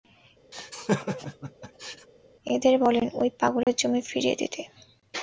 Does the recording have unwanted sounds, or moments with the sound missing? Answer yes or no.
yes